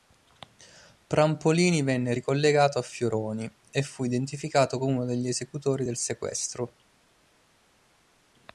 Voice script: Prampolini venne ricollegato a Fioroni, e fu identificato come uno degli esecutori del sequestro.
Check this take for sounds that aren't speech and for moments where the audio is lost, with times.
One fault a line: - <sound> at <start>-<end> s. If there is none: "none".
none